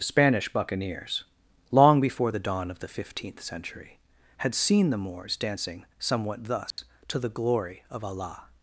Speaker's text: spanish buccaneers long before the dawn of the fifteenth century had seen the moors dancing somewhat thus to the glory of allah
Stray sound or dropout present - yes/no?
yes